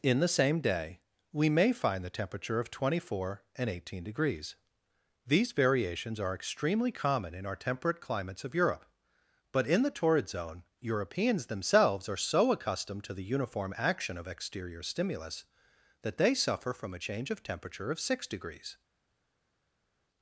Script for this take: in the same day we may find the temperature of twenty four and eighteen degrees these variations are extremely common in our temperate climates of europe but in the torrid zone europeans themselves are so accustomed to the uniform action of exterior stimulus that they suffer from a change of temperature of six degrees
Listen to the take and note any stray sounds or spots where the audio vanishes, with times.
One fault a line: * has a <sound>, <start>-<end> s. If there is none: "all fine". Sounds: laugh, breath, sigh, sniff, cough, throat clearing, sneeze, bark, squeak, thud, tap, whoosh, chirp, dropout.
all fine